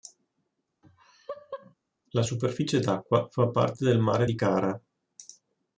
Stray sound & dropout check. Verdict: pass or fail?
fail